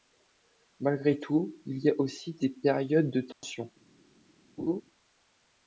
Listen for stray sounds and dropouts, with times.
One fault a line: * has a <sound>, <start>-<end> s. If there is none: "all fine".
* has a dropout, 3.3-3.4 s
* has a laugh, 4.6-4.8 s